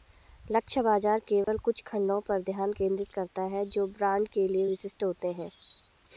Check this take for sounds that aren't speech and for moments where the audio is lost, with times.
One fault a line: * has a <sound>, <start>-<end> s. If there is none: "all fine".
* has a dropout, 1.4-1.5 s